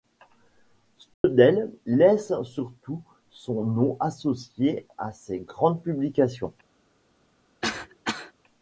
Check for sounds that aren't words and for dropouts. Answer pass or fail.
fail